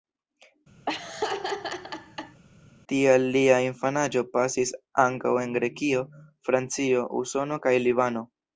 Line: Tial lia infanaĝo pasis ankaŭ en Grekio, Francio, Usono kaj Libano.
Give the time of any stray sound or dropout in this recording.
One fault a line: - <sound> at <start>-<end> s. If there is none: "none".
- laugh at 0.9-2.4 s